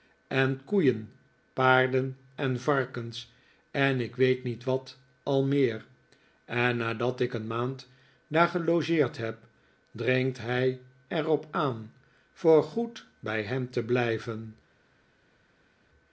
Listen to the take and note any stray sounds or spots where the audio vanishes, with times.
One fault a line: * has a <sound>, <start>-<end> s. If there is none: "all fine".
all fine